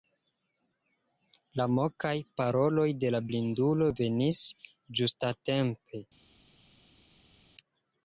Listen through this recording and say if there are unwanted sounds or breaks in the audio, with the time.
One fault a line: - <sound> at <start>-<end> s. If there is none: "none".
none